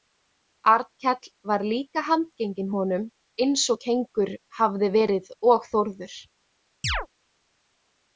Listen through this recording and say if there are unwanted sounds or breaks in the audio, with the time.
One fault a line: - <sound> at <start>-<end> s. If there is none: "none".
- chirp at 6.8-7.1 s